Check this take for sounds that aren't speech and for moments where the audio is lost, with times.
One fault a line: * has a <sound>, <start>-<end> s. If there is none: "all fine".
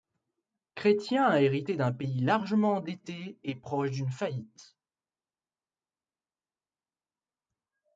all fine